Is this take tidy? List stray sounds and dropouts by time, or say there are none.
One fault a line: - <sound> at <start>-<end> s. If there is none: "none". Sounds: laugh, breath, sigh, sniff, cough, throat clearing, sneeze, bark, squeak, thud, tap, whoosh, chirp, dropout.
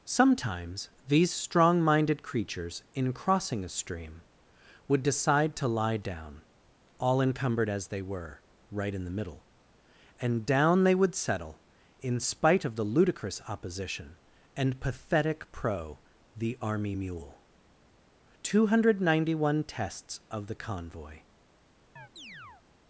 - chirp at 22.0-22.7 s